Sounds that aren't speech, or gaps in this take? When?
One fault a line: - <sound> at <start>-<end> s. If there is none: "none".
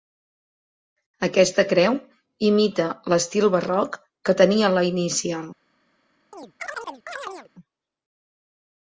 - chirp at 6.3-7.5 s